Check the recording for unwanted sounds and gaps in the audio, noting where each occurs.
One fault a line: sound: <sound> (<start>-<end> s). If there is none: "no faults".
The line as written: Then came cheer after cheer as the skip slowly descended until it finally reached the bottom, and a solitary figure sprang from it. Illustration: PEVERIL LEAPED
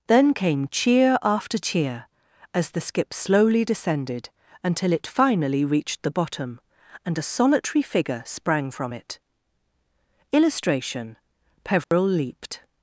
sound: dropout (11.8-11.9 s)